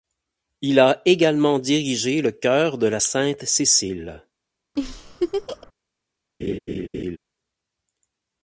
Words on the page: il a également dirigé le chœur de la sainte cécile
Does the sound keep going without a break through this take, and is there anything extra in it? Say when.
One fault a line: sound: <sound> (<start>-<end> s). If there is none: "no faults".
sound: laugh (4.8-5.7 s)
sound: laugh (6.4-7.2 s)